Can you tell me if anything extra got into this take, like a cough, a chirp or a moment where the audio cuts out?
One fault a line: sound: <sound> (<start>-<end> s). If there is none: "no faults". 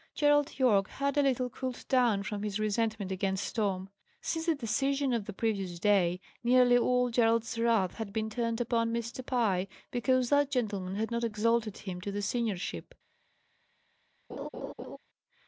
sound: laugh (14.3-15.0 s)